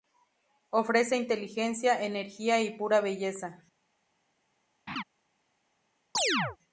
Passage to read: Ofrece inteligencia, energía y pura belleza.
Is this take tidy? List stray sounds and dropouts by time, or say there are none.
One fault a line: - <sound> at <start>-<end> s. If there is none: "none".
- laugh at 4.9-5.0 s
- chirp at 6.1-6.6 s